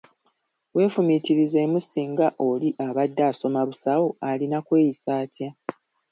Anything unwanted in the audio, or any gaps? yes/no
no